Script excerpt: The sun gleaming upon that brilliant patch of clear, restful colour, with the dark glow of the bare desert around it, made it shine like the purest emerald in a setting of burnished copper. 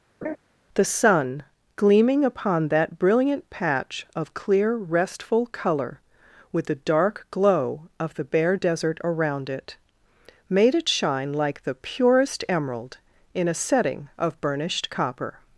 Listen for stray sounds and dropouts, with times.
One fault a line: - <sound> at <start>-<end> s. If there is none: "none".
- laugh at 0.2-0.4 s